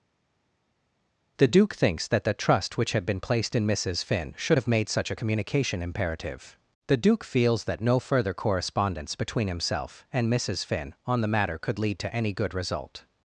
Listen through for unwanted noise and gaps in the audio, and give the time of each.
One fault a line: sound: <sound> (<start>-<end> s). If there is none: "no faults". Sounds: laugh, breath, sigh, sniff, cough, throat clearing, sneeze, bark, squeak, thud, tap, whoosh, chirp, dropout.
no faults